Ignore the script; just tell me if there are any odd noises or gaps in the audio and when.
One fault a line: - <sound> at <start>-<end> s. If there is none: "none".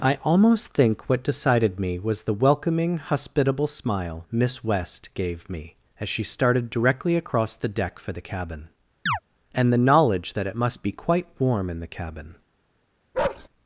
- chirp at 9.1-9.2 s
- bark at 13.1-13.5 s